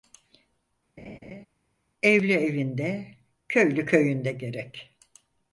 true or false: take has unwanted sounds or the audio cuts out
true